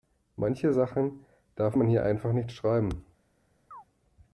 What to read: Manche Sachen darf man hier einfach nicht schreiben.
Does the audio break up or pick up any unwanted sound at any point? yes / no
yes